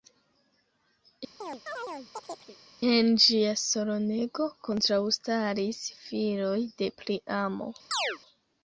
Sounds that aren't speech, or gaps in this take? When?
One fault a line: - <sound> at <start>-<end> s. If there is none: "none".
- chirp at 1.4-2.6 s
- chirp at 7.9-8.2 s